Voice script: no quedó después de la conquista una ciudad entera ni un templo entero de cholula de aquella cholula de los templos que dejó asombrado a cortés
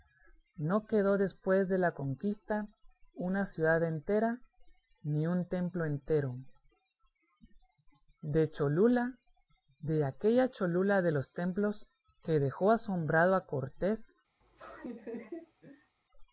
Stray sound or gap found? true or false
true